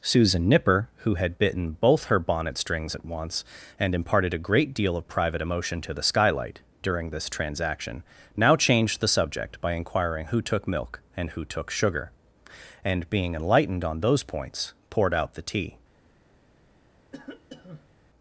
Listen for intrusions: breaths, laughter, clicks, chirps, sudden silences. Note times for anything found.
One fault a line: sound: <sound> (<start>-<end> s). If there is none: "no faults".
sound: cough (17.1-18.0 s)